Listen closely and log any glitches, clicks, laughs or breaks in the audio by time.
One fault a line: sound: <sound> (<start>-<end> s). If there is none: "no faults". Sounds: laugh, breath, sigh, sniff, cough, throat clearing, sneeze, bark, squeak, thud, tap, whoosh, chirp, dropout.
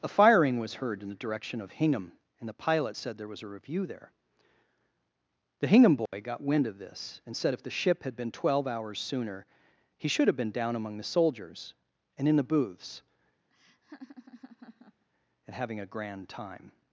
sound: dropout (6.1-6.1 s)
sound: laugh (13.5-15.0 s)